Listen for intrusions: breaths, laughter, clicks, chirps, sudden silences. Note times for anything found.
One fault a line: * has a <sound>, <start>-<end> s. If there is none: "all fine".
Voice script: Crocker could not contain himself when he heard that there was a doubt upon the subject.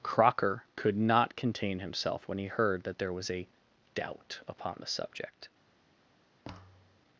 * has a thud, 6.4-7.0 s